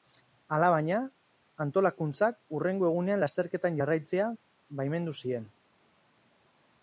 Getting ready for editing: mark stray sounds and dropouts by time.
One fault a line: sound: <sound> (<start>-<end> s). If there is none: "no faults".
no faults